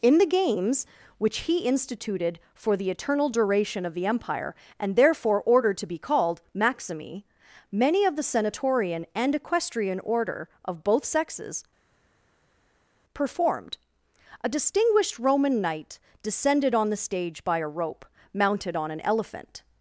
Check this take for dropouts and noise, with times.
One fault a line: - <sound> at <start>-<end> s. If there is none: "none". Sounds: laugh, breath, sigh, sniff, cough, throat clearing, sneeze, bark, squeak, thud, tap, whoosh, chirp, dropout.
none